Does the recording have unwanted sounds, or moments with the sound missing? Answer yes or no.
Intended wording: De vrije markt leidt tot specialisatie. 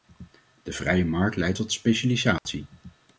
yes